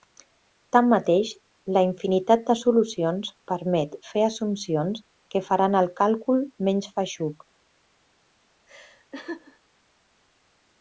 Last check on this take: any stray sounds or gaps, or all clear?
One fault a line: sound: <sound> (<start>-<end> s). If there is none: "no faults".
sound: laugh (8.7-9.6 s)